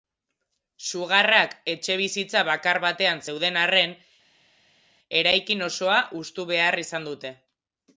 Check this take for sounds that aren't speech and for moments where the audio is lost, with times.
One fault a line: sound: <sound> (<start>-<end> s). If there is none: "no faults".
no faults